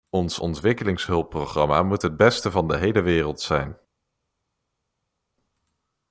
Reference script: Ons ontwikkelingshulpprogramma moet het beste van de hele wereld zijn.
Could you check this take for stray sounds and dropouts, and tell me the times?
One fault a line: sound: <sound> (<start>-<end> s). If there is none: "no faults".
no faults